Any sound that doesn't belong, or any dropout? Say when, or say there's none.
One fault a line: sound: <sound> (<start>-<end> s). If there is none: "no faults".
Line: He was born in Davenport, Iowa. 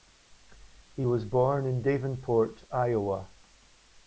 no faults